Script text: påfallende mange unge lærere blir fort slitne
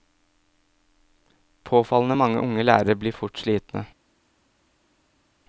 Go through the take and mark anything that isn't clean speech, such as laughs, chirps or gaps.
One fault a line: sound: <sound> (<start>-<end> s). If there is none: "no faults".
no faults